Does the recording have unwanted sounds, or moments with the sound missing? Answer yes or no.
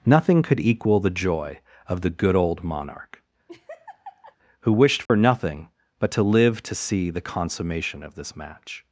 yes